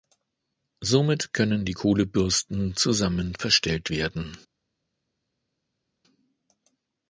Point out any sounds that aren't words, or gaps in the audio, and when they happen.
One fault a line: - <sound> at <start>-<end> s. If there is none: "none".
none